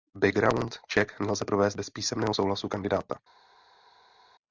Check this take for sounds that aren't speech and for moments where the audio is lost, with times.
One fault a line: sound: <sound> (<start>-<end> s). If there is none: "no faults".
no faults